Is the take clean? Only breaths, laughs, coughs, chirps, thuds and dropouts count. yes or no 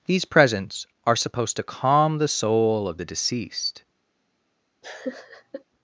no